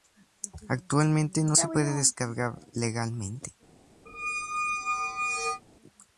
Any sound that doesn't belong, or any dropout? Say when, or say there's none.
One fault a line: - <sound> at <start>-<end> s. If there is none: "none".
- squeak at 4.1-5.6 s